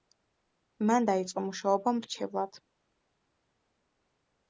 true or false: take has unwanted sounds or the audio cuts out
false